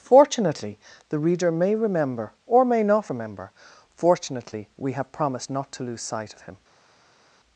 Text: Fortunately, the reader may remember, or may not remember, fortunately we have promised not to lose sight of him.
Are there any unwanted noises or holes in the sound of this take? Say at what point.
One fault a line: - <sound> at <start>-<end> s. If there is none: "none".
none